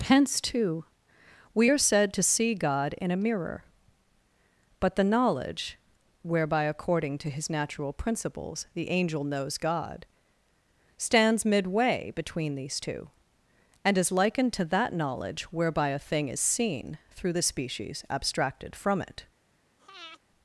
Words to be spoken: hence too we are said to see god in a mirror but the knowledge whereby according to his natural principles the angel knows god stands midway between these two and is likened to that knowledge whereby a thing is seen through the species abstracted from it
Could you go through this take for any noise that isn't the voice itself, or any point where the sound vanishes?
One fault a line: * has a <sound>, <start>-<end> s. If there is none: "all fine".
* has a breath, 19.8-20.2 s